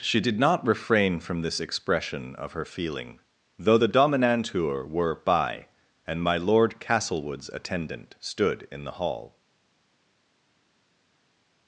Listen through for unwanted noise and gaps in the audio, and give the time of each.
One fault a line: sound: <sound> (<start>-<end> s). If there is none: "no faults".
no faults